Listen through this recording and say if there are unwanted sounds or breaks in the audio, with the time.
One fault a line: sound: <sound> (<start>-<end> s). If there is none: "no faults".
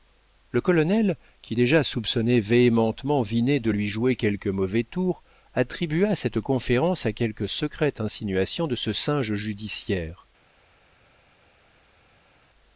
no faults